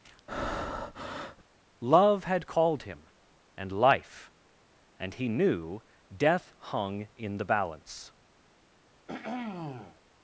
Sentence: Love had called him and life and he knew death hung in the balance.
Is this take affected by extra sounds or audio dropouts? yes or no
yes